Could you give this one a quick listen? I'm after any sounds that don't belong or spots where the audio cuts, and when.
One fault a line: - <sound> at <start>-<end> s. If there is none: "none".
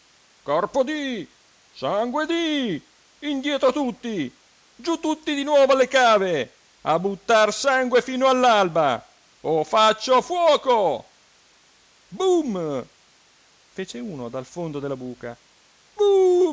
none